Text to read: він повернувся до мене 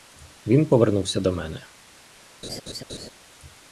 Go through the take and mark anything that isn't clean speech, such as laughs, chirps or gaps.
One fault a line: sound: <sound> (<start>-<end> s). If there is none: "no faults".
sound: laugh (2.4-3.1 s)